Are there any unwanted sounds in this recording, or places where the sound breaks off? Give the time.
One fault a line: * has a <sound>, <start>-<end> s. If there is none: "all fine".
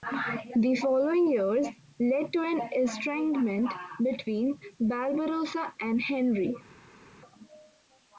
all fine